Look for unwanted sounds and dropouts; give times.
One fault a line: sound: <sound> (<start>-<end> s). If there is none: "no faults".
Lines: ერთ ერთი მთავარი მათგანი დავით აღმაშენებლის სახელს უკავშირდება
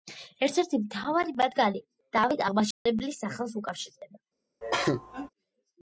sound: dropout (2.7-2.9 s)
sound: cough (4.6-5.3 s)